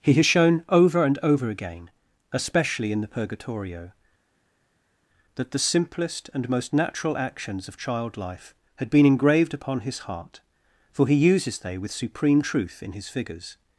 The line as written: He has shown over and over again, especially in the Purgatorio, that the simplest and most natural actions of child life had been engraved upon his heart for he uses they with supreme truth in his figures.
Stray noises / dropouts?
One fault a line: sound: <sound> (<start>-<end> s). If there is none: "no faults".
no faults